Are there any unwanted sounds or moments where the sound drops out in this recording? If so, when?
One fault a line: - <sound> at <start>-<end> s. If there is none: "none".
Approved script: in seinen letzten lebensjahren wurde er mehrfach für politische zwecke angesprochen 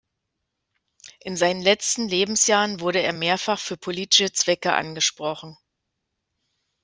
none